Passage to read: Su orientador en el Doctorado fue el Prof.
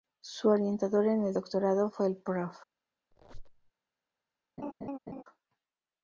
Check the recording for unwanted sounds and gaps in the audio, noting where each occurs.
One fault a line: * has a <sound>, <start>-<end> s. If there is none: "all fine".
* has a squeak, 3.1-3.7 s
* has a laugh, 4.6-5.2 s